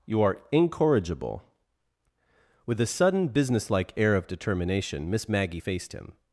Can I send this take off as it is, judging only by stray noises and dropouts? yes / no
yes